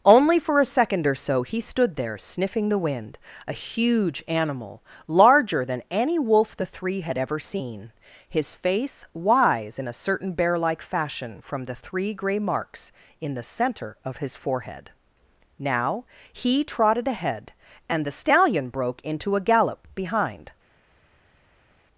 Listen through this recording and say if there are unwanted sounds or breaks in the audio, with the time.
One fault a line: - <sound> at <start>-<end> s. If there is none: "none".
none